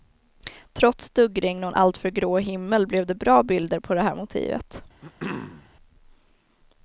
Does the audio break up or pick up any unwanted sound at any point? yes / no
yes